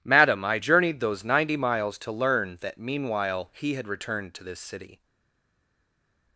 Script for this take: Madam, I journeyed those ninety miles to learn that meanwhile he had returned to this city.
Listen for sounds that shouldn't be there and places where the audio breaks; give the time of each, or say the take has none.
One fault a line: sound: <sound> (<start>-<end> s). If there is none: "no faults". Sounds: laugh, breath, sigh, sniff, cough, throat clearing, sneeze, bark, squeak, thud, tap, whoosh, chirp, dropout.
no faults